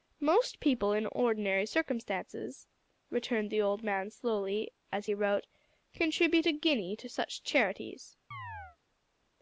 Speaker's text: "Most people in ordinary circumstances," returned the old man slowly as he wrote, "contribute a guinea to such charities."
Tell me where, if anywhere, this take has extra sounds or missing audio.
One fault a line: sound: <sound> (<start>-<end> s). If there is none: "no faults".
sound: chirp (8.3-8.8 s)